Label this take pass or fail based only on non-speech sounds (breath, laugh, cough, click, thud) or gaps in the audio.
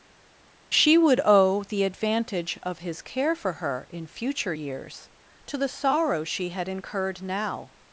pass